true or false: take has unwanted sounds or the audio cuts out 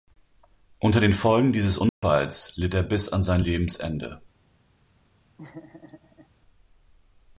true